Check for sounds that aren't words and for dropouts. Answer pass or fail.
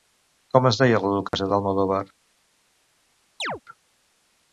fail